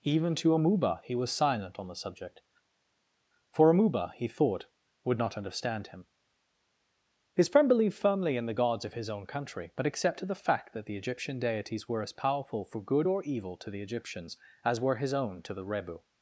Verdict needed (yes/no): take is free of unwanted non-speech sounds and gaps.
yes